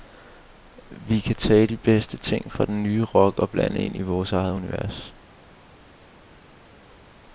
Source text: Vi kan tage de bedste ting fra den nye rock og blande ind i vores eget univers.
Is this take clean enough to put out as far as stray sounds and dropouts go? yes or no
yes